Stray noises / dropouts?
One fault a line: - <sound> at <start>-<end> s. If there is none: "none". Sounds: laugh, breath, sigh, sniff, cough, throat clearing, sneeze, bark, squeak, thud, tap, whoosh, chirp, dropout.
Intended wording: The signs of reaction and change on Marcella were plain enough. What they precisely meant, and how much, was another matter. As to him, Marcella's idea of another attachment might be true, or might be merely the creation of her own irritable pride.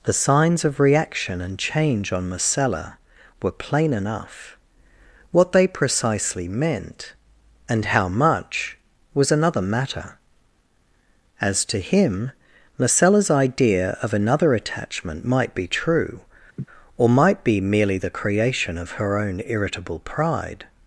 - laugh at 16.6-16.7 s